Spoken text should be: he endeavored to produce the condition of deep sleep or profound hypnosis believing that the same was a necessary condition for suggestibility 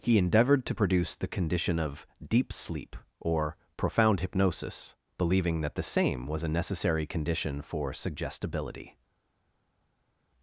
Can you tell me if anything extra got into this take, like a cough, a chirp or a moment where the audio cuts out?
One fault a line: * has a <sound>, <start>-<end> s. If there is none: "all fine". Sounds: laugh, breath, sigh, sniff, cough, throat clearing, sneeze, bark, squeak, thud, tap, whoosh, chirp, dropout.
all fine